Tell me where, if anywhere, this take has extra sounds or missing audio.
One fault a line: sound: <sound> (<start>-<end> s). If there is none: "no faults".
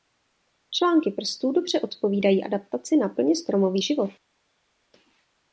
no faults